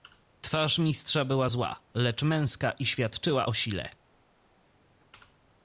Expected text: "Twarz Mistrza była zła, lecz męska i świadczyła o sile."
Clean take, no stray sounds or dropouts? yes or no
yes